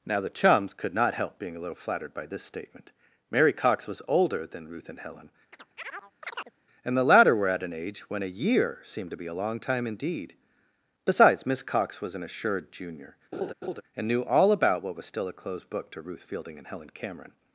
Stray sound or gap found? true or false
true